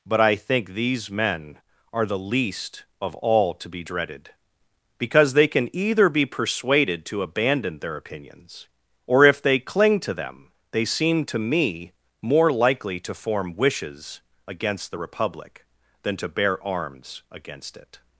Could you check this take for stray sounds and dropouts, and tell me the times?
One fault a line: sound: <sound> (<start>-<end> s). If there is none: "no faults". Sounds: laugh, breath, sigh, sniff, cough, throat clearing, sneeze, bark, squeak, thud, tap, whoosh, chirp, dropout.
no faults